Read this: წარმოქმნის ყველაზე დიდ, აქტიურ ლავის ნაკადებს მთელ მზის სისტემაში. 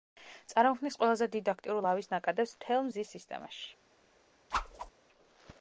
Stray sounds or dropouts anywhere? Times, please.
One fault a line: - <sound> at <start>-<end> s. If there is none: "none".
- whoosh at 4.5-4.9 s